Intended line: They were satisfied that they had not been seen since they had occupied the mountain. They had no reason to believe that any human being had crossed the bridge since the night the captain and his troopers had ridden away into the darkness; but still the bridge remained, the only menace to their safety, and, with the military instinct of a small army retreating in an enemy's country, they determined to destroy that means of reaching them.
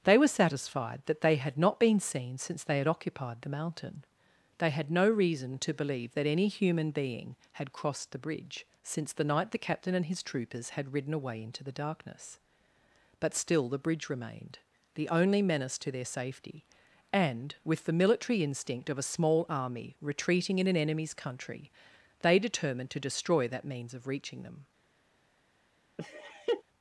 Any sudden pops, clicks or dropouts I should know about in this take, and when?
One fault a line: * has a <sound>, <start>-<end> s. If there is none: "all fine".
* has a laugh, 26.0-26.6 s